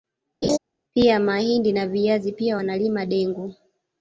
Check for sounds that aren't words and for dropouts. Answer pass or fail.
fail